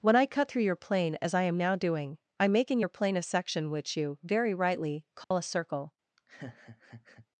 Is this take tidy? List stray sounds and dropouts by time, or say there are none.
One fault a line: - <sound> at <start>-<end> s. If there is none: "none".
- dropout at 5.2-5.3 s
- laugh at 6.2-7.3 s